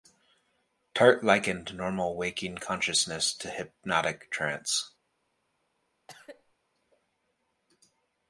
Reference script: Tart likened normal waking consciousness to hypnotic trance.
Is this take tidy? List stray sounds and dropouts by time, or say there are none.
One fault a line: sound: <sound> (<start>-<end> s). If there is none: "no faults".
sound: cough (6.1-6.5 s)